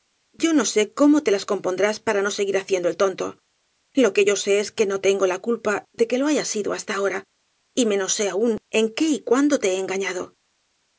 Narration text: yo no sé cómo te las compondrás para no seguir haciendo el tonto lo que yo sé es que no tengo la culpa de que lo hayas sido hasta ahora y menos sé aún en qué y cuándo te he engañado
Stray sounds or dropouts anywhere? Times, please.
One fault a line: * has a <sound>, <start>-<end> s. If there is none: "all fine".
all fine